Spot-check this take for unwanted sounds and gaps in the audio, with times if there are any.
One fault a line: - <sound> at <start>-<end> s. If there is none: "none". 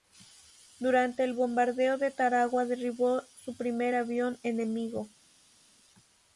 none